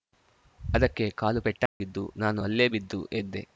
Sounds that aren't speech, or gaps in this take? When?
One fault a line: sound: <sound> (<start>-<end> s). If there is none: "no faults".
sound: dropout (1.7-1.8 s)